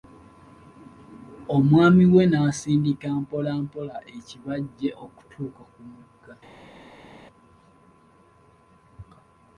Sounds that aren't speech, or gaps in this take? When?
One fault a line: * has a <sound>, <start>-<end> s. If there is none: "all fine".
all fine